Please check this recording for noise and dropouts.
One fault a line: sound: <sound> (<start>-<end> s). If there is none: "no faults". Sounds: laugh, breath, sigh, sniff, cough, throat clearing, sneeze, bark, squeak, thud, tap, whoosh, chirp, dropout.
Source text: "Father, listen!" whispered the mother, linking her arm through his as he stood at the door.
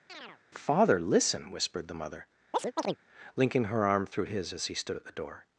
sound: chirp (0.1-0.4 s)
sound: chirp (2.5-3.0 s)